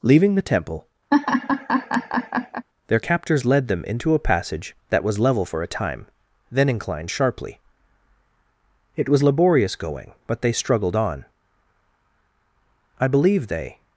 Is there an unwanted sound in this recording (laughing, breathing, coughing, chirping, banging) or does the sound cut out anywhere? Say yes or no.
yes